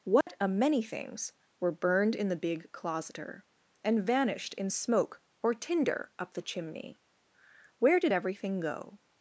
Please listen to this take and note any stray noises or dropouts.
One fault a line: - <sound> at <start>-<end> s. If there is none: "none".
- dropout at 0.2-0.3 s